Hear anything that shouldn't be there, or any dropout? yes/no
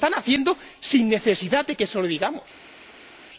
no